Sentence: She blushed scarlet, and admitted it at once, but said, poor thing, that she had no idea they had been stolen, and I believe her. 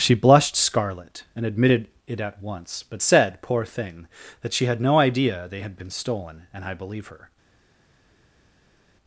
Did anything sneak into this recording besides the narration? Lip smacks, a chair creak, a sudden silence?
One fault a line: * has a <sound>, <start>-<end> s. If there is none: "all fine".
all fine